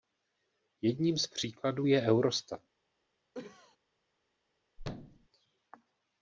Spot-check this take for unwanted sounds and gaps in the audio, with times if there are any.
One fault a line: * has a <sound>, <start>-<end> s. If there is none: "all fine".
* has a cough, 3.3-3.8 s
* has a thud, 4.8-5.3 s